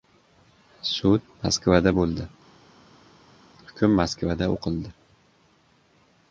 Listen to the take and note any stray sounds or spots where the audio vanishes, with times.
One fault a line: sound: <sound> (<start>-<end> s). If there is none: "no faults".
no faults